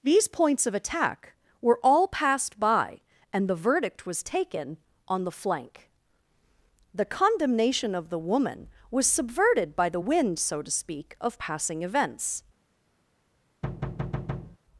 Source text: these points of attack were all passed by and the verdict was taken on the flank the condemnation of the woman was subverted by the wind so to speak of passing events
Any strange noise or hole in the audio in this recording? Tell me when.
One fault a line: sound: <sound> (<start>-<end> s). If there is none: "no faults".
sound: thud (13.6-14.6 s)